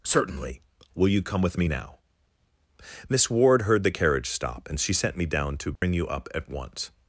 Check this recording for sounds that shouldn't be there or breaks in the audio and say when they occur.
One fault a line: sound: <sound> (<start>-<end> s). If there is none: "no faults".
sound: dropout (5.8-5.8 s)